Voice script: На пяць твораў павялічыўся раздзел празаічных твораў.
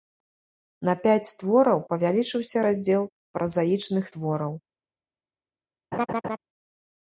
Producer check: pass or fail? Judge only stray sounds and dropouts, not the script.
fail